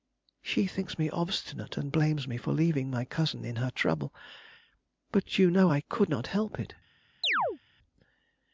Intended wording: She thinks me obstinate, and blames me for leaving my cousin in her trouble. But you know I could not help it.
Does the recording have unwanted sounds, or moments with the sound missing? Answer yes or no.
yes